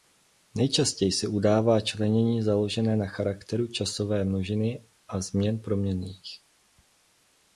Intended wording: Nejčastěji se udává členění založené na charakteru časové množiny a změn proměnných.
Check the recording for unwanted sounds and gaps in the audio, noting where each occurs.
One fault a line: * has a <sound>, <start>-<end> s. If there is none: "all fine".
all fine